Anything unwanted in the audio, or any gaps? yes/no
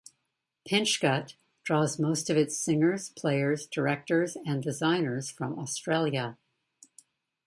no